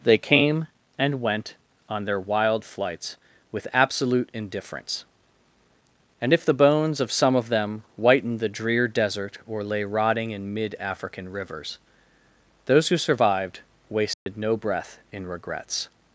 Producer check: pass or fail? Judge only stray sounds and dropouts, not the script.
fail